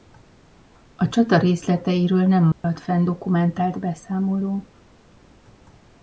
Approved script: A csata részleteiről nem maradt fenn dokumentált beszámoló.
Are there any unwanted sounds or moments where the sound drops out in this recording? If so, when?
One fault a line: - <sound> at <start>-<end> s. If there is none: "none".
- dropout at 2.5-2.6 s